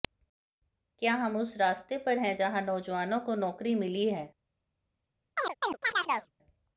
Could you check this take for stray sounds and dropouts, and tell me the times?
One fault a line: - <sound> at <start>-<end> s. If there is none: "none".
- chirp at 5.4-6.3 s